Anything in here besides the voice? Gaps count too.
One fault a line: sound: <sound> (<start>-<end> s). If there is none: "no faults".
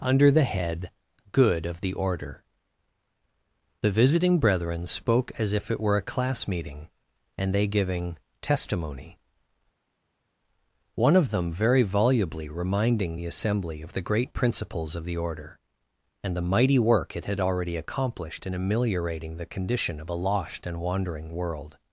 no faults